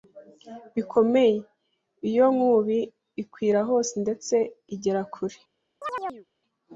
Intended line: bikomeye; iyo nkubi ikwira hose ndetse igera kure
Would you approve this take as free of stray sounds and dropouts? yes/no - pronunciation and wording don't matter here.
no